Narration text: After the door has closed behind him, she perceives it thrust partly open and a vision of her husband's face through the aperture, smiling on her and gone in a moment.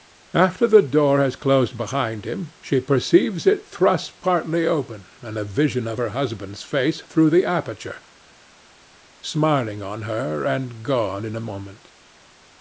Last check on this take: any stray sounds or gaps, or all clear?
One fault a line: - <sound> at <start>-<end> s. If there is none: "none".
none